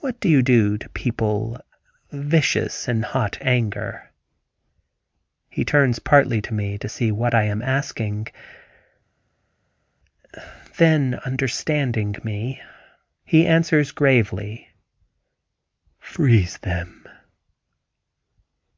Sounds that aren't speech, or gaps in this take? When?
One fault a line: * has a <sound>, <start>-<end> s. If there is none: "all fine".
all fine